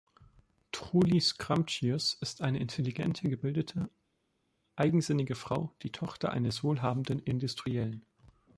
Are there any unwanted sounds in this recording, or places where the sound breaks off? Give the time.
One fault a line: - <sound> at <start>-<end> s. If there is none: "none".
none